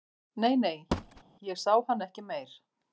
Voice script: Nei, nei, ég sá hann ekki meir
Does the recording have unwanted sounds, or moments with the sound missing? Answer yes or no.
yes